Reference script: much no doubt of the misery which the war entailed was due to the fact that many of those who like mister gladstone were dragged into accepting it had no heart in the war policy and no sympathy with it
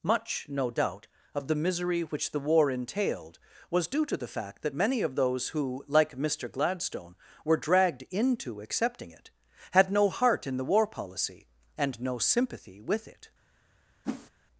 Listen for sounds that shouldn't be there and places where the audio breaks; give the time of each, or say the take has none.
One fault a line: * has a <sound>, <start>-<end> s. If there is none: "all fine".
* has a whoosh, 14.0-14.3 s